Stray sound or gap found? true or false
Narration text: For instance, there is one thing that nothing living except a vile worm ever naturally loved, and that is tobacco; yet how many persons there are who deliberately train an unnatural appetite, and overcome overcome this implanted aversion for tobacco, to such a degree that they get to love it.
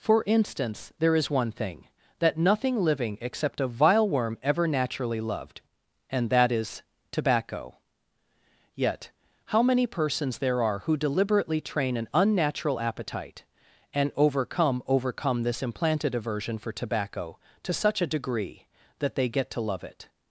false